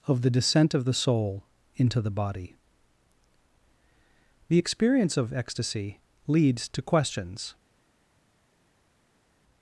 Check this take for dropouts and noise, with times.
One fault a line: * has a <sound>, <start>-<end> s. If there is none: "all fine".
all fine